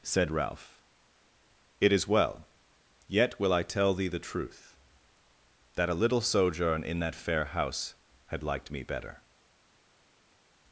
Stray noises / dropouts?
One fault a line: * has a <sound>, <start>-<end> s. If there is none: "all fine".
all fine